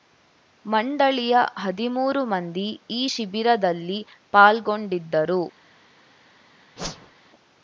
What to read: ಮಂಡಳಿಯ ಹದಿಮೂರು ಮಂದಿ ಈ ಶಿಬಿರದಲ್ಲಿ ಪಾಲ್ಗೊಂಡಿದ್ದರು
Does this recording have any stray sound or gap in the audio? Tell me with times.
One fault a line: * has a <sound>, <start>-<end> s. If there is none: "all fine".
* has a whoosh, 6.8-7.1 s